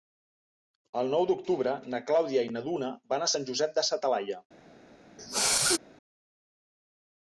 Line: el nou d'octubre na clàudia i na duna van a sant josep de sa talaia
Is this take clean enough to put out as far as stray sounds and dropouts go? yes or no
no